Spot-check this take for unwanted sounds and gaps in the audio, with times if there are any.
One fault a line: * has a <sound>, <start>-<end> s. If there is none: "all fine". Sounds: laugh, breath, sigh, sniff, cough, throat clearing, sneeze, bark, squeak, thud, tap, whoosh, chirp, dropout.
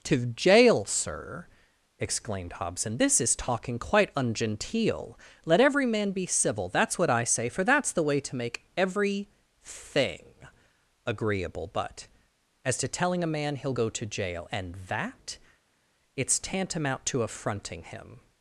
all fine